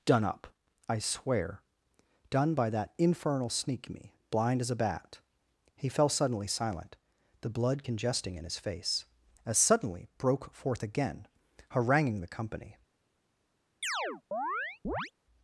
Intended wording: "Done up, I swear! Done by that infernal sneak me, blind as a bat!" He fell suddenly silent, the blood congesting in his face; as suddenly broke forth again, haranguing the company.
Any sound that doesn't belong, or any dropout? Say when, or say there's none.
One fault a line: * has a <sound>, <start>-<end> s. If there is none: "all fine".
* has a chirp, 13.8-15.1 s